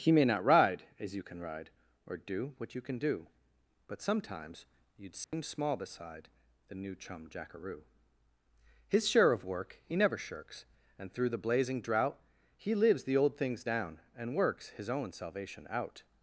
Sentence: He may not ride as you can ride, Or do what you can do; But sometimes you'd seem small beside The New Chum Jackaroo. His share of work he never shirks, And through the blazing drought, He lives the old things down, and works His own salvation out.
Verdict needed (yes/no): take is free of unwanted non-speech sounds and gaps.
no